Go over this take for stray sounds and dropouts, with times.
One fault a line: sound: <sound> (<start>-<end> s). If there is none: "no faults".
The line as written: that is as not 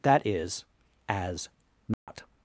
sound: dropout (1.9-2.1 s)